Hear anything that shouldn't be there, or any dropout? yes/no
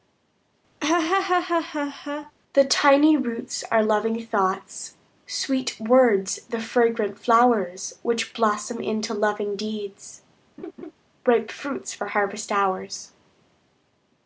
yes